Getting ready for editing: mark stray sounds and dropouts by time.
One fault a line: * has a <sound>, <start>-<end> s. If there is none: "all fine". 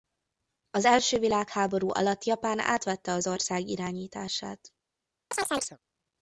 * has a chirp, 5.3-5.8 s